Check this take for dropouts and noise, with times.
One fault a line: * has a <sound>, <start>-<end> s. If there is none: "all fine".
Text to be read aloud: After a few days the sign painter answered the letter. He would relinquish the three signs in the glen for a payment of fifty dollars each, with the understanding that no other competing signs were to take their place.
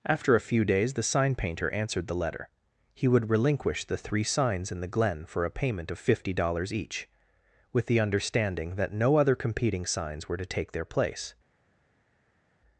all fine